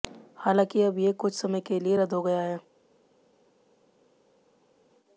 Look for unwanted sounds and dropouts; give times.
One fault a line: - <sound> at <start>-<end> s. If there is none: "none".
none